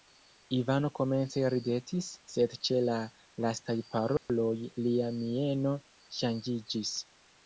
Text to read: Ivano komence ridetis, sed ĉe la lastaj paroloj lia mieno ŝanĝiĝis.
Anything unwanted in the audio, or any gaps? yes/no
yes